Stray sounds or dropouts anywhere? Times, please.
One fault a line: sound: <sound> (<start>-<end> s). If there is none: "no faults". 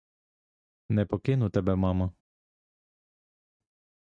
no faults